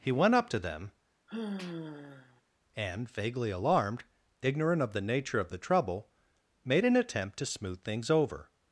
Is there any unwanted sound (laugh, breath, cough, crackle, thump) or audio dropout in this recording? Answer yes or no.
yes